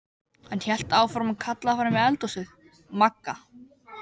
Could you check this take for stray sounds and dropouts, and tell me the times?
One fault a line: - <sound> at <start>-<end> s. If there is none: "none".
none